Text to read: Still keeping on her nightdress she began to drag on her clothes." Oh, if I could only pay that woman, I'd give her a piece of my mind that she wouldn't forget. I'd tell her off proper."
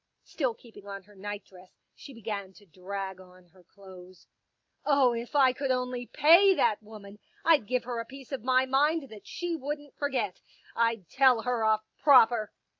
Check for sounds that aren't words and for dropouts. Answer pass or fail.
pass